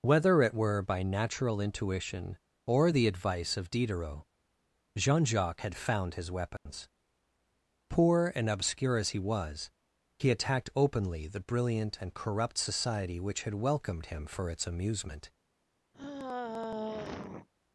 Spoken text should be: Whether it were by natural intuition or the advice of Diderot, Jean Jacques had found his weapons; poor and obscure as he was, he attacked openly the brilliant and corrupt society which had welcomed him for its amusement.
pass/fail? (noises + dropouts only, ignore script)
fail